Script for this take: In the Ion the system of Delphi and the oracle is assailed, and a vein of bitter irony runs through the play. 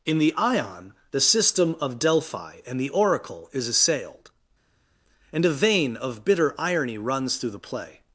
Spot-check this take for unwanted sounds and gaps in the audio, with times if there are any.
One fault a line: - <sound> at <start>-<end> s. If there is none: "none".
none